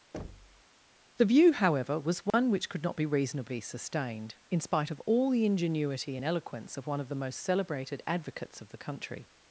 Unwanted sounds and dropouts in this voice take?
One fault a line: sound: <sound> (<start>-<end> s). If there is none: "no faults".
sound: thud (0.1-0.6 s)
sound: dropout (2.3-2.3 s)